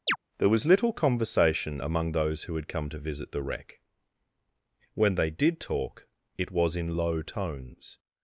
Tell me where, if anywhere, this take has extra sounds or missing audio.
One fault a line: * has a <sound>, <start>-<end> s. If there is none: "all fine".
* has a chirp, 0.1-0.2 s